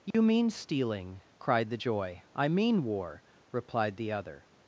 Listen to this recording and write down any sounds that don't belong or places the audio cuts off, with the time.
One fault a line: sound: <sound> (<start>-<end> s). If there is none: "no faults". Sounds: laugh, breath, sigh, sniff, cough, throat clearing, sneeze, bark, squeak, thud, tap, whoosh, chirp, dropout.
sound: dropout (0.1-0.1 s)